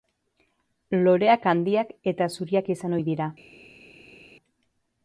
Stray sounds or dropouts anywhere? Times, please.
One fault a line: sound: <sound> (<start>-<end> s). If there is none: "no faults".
no faults